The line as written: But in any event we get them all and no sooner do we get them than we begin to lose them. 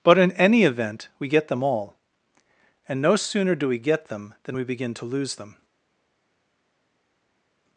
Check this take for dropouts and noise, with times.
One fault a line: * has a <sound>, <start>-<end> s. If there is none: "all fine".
all fine